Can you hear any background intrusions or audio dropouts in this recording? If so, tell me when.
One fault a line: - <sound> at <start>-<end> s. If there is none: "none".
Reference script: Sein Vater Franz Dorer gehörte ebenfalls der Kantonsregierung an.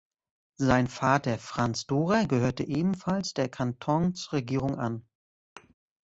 - thud at 5.6-5.7 s